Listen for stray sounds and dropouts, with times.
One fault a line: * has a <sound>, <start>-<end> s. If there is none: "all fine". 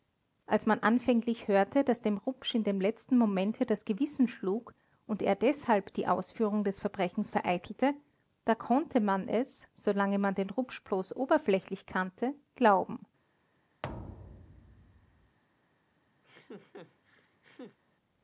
* has a thud, 13.8-15.4 s
* has a laugh, 16.2-17.8 s